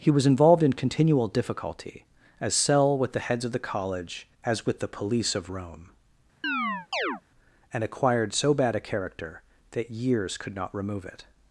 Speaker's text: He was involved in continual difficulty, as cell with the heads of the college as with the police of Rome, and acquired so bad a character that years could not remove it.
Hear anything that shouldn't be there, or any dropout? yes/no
yes